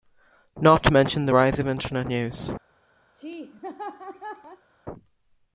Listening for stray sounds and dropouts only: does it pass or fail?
fail